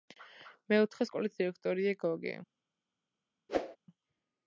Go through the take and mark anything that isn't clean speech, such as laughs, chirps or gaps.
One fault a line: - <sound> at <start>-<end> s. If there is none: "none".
- whoosh at 3.5-3.8 s